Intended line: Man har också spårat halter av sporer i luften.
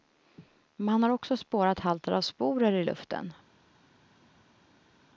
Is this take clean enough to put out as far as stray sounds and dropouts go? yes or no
yes